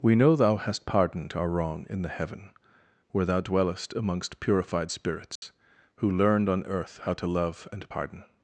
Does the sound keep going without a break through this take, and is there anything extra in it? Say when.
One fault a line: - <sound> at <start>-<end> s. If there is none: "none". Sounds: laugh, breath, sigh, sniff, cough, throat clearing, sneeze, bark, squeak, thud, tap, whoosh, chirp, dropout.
- dropout at 5.4-5.4 s